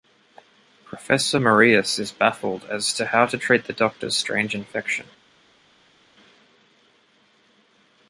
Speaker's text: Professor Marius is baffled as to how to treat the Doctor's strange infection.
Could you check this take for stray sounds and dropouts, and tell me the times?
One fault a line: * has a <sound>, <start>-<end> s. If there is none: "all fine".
all fine